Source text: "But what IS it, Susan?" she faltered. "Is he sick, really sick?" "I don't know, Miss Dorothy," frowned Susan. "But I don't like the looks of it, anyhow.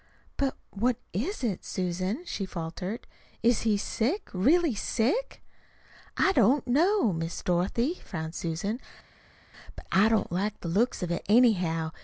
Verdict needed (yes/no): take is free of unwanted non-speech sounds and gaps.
yes